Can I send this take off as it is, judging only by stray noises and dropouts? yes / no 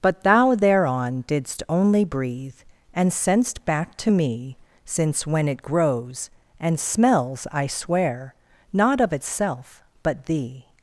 yes